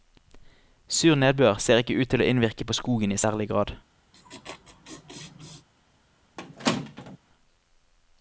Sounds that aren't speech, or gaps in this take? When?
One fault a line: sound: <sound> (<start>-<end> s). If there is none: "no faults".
sound: laugh (4.1-5.7 s)
sound: squeak (6.4-7.2 s)